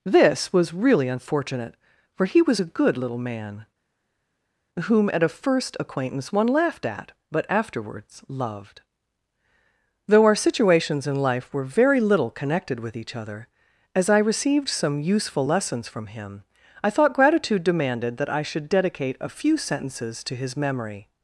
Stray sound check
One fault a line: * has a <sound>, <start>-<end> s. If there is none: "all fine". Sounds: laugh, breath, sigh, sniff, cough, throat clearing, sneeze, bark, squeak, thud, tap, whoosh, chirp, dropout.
all fine